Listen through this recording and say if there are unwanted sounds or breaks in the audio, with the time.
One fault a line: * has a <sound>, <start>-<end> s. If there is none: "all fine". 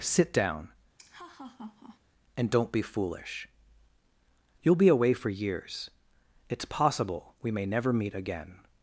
* has a laugh, 1.0-2.0 s